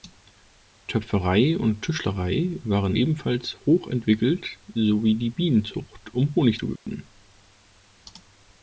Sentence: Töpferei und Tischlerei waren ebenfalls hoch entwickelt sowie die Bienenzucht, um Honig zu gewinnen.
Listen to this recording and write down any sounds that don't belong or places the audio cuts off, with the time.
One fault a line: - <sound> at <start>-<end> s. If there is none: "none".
- dropout at 6.8-6.9 s